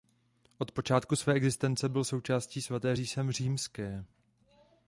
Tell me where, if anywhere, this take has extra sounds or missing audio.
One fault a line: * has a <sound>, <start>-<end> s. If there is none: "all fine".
all fine